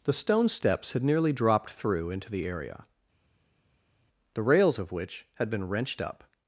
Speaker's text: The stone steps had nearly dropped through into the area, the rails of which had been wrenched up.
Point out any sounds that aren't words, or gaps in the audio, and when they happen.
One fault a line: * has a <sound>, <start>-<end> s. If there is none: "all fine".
all fine